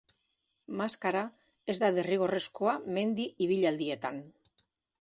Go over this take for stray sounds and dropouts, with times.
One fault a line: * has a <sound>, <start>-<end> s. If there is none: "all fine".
all fine